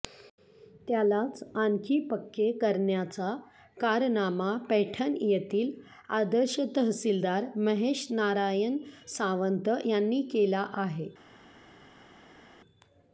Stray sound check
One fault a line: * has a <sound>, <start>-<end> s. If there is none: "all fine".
all fine